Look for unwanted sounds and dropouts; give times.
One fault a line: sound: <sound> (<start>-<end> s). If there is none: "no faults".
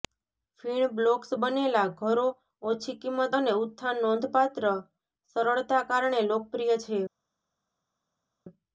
no faults